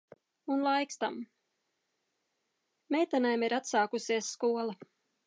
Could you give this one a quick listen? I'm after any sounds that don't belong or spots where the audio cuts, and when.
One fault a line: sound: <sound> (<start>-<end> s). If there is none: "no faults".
no faults